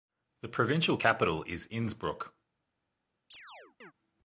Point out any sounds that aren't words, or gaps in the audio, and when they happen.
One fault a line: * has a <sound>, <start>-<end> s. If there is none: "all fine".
* has a chirp, 3.3-3.9 s